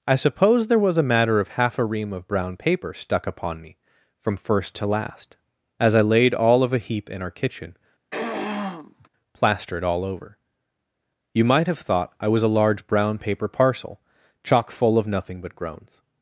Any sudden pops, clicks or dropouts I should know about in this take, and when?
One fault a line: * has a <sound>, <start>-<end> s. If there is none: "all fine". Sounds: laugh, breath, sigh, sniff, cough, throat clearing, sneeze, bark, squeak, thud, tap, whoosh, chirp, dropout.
* has a throat clearing, 8.1-9.1 s